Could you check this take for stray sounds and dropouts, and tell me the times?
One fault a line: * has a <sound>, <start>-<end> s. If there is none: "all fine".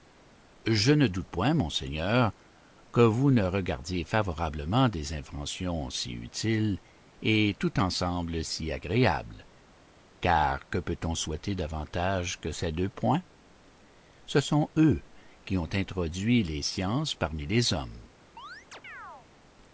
* has a chirp, 18.4-19.3 s